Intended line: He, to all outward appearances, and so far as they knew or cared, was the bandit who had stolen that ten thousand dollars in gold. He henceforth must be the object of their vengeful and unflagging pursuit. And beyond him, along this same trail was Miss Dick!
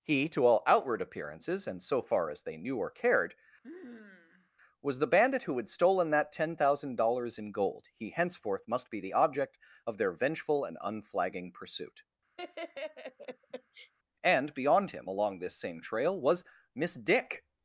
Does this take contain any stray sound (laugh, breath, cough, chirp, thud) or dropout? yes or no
yes